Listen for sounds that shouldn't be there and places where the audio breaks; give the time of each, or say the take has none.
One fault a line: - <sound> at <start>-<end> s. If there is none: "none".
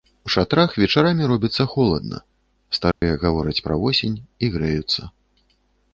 - dropout at 2.9-3.0 s